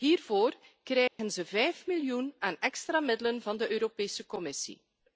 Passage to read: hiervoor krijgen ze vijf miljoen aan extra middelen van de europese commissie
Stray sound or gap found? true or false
true